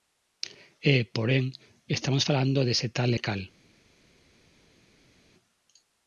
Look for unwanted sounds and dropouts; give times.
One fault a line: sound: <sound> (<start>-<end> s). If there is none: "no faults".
no faults